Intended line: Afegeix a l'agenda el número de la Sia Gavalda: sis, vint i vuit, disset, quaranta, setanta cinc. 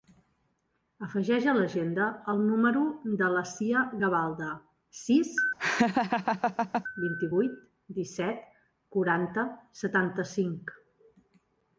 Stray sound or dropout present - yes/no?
yes